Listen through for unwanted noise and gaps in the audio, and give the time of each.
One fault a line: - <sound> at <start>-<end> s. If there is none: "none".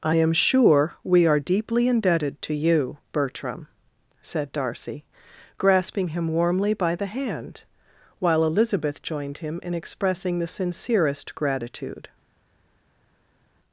none